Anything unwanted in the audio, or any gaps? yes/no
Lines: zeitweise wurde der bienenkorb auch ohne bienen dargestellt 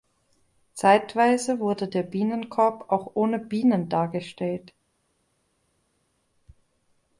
no